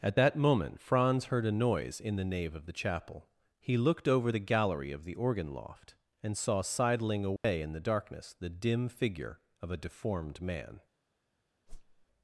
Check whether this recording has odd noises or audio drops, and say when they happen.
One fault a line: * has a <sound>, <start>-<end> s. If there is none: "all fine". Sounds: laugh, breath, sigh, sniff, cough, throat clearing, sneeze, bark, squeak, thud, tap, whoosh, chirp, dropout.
* has a dropout, 7.4-7.4 s
* has a whoosh, 11.7-12.1 s